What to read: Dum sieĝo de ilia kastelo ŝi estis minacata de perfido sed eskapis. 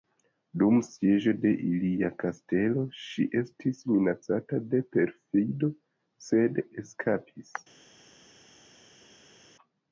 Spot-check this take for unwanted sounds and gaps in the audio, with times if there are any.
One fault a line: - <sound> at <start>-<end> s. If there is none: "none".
none